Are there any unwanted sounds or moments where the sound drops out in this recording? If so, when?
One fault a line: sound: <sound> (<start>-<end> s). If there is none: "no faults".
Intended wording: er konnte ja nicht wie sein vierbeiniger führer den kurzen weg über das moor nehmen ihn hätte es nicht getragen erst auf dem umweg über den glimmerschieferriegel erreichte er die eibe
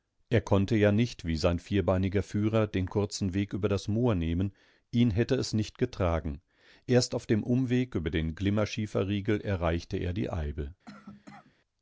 sound: cough (10.9-11.5 s)